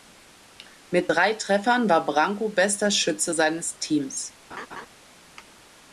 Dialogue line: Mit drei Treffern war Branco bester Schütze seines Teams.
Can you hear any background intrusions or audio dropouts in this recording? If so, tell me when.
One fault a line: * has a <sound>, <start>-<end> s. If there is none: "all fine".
* has a laugh, 4.5-4.9 s